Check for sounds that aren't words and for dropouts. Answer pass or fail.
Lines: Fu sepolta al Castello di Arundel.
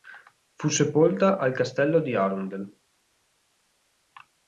pass